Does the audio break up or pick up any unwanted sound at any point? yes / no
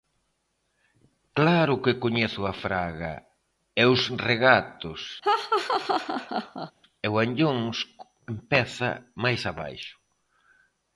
yes